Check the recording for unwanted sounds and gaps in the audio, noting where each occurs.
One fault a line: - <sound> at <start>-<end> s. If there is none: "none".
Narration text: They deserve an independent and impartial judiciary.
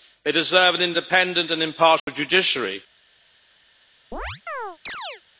- dropout at 2.0-2.1 s
- chirp at 4.1-5.2 s